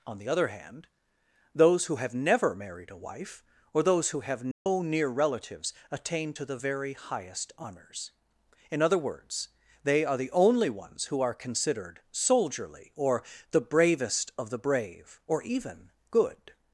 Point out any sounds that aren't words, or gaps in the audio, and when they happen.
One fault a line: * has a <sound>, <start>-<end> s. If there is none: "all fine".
* has a dropout, 4.5-4.7 s